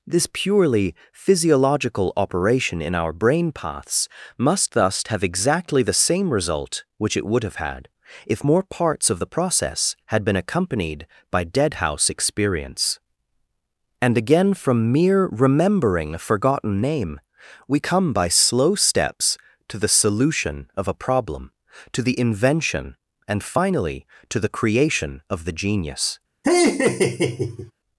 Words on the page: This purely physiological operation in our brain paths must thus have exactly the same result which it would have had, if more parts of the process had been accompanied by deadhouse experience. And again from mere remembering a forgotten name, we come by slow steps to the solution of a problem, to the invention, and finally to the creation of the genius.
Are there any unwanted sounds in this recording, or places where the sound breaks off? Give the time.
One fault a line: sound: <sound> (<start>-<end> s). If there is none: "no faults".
sound: laugh (26.4-27.7 s)